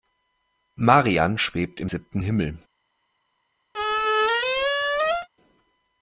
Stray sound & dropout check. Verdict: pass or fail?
fail